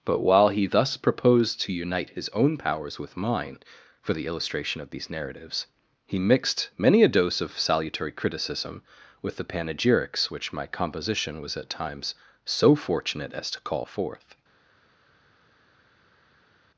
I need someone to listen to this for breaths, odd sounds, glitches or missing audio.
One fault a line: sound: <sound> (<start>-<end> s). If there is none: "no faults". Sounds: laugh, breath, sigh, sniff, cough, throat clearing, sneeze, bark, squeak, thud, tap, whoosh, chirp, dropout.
no faults